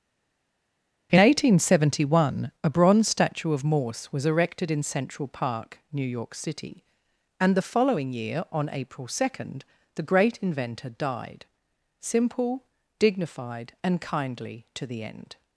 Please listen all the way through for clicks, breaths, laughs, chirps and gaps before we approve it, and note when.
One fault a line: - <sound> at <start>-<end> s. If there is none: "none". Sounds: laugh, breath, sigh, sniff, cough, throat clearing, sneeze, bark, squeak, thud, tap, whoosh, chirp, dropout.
none